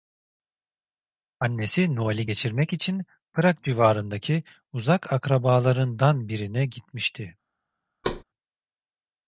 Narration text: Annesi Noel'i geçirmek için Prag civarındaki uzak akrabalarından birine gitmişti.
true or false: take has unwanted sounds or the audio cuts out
true